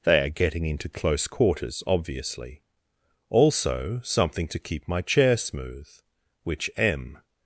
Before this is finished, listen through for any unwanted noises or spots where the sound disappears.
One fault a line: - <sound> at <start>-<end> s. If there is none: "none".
none